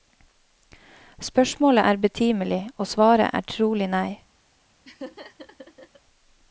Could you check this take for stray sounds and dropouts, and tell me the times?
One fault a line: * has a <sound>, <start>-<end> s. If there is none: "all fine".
* has a laugh, 4.8-6.0 s